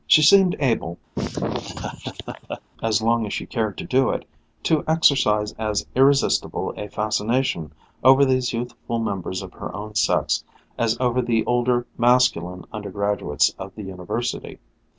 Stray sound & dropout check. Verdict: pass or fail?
fail